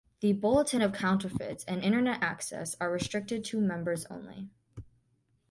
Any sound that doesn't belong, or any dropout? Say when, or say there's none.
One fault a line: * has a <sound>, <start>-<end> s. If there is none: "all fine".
all fine